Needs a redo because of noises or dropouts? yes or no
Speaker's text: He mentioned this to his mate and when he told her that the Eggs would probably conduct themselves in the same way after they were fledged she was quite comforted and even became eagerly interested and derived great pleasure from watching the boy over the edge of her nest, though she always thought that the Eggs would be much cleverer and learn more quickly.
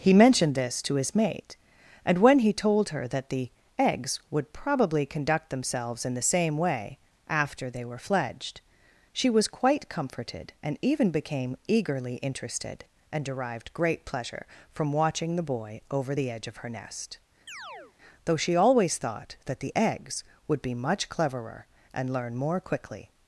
yes